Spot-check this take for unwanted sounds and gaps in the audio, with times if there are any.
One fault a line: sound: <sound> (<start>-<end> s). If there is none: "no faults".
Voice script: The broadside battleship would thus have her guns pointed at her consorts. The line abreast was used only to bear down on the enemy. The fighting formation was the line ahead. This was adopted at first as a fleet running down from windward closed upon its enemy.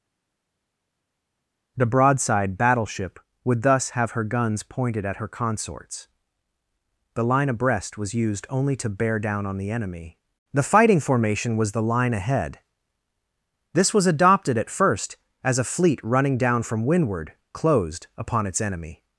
no faults